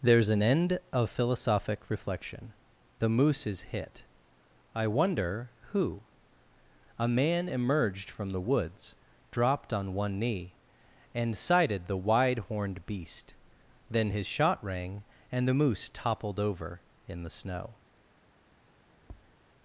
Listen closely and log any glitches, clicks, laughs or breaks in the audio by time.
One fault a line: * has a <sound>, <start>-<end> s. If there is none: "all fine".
* has a tap, 19.0-19.4 s